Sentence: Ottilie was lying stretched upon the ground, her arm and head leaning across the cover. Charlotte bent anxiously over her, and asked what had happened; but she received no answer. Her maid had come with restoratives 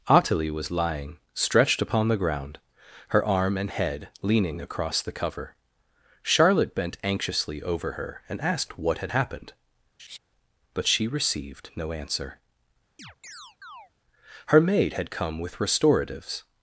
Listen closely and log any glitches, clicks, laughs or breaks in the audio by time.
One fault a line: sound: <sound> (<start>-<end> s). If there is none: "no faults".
sound: laugh (10.0-10.2 s)
sound: chirp (13.0-13.9 s)